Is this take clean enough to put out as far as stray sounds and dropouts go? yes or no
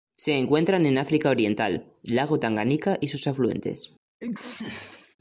no